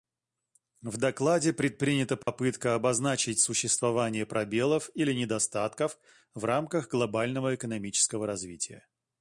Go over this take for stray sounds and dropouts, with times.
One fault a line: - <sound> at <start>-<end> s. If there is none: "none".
- dropout at 2.2-2.3 s